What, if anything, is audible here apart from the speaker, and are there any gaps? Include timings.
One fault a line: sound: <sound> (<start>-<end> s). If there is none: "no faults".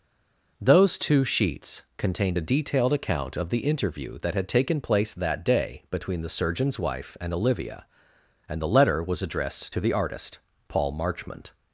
no faults